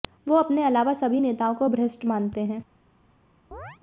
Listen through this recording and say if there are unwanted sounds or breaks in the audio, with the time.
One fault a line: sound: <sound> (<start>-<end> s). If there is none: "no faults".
sound: chirp (3.5-3.8 s)